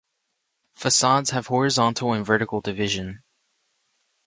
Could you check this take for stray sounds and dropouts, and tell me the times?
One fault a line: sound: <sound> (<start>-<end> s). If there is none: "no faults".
no faults